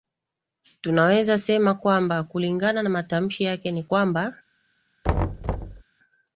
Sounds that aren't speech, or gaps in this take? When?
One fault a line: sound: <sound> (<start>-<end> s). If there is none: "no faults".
sound: thud (5.0-5.8 s)